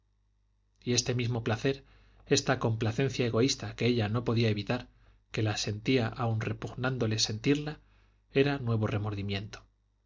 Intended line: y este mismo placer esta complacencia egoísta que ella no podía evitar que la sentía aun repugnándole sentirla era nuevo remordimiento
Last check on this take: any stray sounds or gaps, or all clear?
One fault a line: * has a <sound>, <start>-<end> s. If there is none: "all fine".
all fine